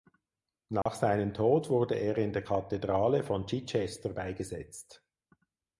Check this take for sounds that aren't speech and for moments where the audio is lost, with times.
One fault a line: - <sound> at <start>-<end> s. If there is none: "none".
- dropout at 0.8-0.9 s